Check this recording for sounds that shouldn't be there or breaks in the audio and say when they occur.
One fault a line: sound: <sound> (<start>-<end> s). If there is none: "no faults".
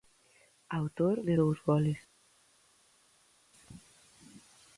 no faults